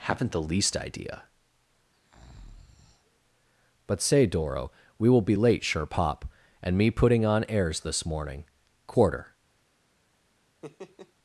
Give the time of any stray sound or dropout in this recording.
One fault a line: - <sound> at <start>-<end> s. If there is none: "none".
- breath at 1.9-3.2 s
- laugh at 10.6-11.1 s